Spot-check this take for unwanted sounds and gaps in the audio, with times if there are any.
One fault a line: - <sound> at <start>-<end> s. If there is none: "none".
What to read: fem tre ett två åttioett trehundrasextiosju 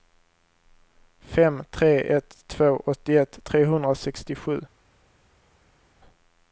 none